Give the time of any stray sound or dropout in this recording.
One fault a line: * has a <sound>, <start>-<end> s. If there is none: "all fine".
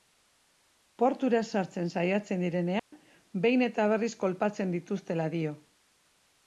* has a dropout, 2.8-2.9 s